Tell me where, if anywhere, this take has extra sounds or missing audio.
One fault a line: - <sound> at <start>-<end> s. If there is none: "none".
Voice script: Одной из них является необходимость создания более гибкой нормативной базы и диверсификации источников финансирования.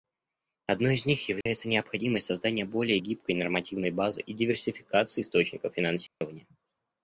- dropout at 1.4-1.5 s
- dropout at 6.1-6.2 s